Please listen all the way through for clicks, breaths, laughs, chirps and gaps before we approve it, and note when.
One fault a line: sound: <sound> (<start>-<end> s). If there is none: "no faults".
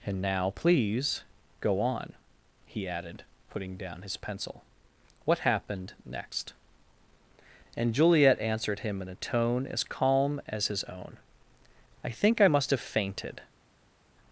no faults